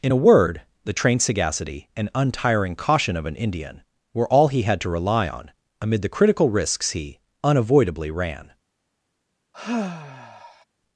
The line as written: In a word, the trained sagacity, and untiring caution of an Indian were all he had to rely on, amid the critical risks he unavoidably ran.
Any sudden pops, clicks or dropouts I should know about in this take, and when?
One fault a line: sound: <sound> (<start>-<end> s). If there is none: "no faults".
sound: sigh (9.5-10.6 s)